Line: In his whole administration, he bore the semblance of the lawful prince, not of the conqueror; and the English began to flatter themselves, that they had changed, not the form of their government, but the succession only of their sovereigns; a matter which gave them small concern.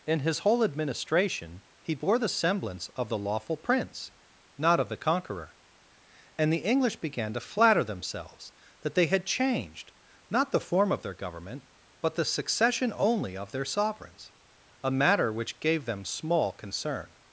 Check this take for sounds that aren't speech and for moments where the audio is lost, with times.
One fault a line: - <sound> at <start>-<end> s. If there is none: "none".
none